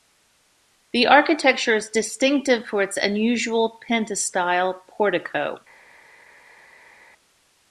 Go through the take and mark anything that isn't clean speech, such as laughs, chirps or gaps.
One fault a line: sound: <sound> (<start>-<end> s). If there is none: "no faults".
no faults